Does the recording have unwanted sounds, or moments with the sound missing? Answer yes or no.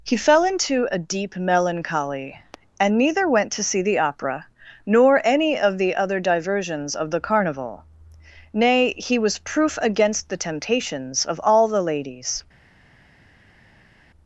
no